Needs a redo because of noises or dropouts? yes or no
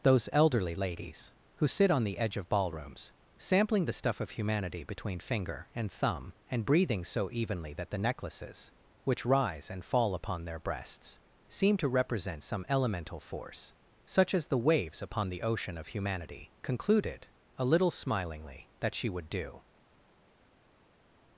no